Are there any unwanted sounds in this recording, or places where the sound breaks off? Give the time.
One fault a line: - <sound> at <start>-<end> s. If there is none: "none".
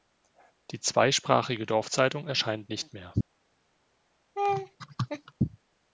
- laugh at 4.4-5.3 s